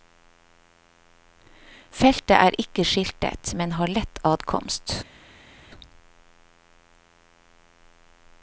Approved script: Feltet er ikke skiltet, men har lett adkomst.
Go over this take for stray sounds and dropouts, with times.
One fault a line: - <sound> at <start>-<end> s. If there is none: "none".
none